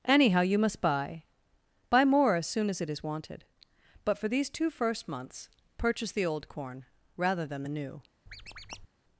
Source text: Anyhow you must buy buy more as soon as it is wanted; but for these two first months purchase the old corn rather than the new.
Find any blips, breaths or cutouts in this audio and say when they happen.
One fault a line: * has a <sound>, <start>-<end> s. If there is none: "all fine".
* has a squeak, 8.3-8.9 s